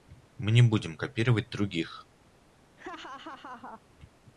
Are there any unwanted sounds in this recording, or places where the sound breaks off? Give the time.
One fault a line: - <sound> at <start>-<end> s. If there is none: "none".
- laugh at 2.8-3.8 s